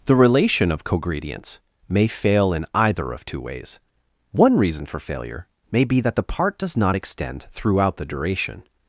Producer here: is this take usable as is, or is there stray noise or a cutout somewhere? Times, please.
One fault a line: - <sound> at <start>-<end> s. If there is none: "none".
none